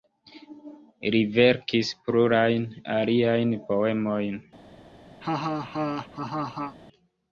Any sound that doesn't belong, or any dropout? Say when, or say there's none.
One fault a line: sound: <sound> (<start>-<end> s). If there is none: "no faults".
sound: laugh (5.2-6.8 s)